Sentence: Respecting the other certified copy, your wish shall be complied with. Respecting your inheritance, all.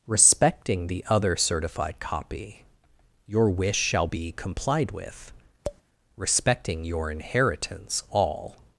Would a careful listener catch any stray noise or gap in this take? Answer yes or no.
yes